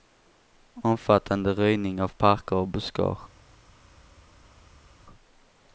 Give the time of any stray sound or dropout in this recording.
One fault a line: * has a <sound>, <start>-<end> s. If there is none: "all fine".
all fine